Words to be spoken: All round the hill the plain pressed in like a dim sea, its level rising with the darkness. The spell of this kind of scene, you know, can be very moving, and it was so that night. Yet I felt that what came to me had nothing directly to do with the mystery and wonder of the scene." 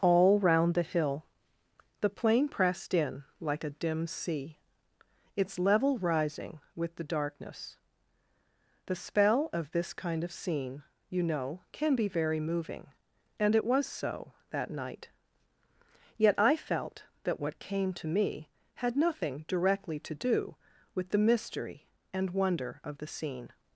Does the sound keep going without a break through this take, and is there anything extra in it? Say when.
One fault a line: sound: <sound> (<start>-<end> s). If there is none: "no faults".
no faults